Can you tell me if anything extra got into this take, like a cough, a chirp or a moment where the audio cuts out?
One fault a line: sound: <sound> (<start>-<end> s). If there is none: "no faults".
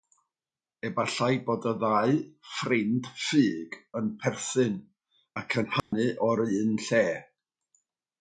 sound: dropout (5.8-5.9 s)